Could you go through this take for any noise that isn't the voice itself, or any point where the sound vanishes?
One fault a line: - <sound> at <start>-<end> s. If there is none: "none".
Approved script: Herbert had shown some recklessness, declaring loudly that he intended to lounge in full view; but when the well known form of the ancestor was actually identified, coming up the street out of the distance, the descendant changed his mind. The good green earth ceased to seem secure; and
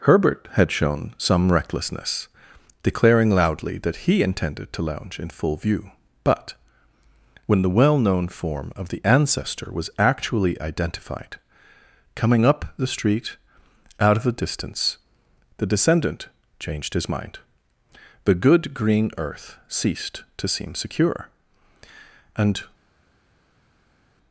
none